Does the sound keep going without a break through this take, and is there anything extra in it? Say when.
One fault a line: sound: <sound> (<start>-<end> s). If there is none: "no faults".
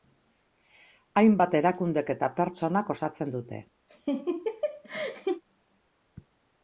sound: laugh (3.9-5.4 s)